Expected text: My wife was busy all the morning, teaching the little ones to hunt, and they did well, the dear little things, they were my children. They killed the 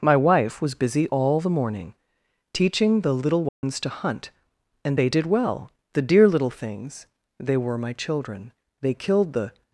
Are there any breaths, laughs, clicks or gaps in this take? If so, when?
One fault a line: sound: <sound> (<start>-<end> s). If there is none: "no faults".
sound: dropout (3.5-3.6 s)